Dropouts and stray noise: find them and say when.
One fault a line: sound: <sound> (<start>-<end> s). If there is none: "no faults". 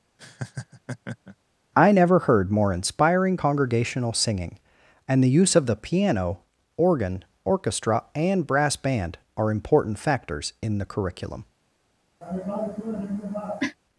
sound: laugh (0.2-1.4 s)
sound: cough (12.2-13.8 s)